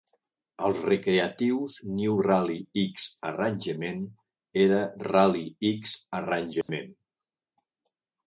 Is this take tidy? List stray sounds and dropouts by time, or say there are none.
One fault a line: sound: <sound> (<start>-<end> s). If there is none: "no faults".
sound: dropout (6.6-6.7 s)